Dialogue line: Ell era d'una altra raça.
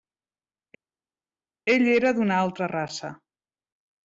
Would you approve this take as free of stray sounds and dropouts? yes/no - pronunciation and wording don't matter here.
yes